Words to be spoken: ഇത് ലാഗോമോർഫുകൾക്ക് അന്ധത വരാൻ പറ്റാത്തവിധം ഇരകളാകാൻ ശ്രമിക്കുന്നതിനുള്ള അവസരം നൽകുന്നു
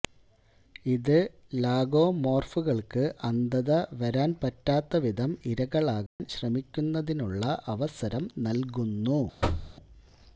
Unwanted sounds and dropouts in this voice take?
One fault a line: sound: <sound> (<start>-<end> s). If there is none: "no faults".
sound: dropout (6.1-6.2 s)
sound: thud (9.4-9.7 s)